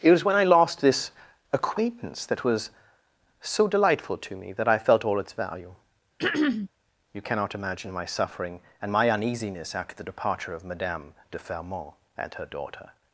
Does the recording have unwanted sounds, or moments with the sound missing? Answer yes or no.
yes